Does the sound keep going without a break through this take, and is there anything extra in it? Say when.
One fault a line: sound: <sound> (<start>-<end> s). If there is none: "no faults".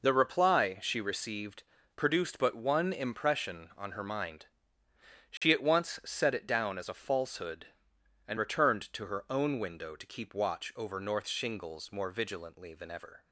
sound: dropout (5.4-5.4 s)